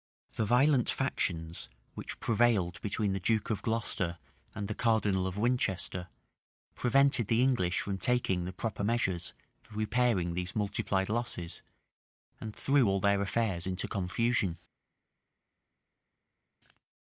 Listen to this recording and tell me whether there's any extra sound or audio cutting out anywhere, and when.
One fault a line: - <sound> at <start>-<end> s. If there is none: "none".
none